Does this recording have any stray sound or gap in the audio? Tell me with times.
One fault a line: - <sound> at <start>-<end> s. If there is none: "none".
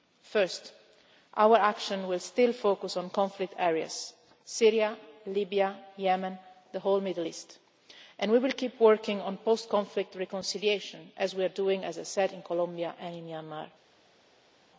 none